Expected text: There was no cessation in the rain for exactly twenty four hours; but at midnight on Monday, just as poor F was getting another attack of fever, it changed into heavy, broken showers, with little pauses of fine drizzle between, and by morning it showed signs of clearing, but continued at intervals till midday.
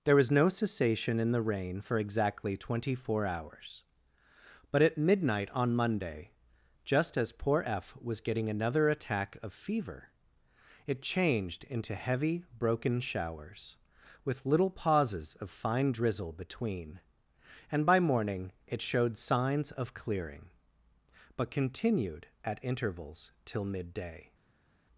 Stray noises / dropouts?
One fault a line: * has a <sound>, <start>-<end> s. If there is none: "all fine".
all fine